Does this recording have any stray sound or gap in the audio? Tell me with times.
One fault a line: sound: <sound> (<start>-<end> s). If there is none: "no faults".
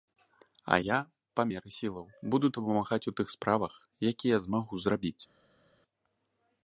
no faults